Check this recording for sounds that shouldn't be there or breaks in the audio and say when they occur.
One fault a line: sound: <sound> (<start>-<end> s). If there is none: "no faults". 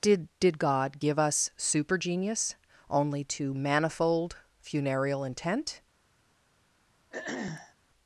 sound: throat clearing (7.1-7.7 s)